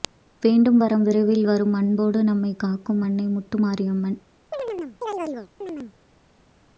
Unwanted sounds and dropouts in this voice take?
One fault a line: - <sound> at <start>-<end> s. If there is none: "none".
- chirp at 4.5-5.9 s